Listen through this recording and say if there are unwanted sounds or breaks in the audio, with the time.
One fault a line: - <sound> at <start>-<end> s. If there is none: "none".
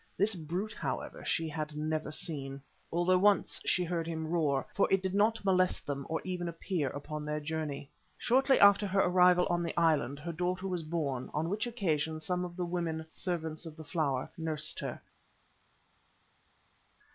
none